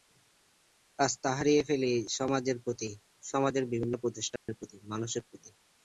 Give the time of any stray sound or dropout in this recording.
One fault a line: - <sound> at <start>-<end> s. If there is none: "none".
- dropout at 4.4-4.5 s